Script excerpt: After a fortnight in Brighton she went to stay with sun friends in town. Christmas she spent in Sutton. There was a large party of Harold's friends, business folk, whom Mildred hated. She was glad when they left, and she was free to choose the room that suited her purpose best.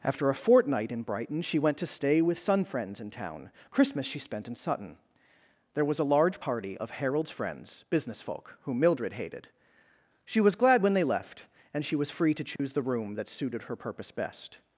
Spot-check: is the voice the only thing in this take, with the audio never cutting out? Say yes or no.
no